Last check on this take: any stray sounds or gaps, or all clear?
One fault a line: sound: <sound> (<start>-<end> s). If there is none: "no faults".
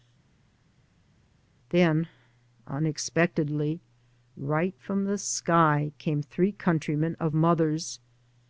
no faults